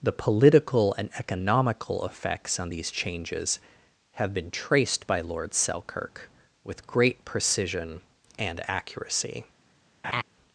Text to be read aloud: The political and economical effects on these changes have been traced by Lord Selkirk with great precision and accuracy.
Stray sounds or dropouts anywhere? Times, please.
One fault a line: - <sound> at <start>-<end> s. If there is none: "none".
- laugh at 10.0-10.2 s